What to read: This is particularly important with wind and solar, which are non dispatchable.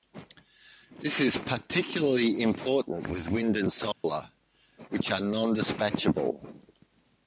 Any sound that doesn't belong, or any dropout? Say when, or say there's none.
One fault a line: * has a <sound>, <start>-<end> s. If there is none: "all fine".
* has a dropout, 3.9-4.0 s